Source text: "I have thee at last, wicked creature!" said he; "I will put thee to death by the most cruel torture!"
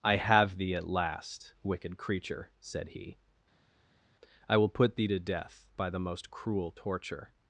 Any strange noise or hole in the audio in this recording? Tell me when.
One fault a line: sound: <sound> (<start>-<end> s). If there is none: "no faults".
no faults